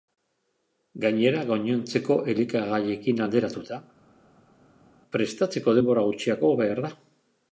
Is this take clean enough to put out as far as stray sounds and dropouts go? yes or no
yes